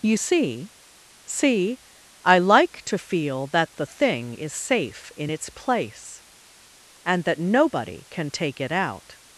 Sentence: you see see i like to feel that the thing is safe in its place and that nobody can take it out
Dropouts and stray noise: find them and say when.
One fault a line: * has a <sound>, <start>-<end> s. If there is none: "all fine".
all fine